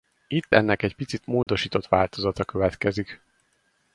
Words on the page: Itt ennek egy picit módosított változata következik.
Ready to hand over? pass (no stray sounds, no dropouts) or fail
fail